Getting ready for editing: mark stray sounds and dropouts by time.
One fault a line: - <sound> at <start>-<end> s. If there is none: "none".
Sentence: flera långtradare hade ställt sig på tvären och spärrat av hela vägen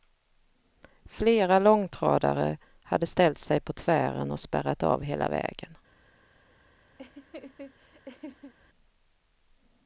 - laugh at 7.0-8.5 s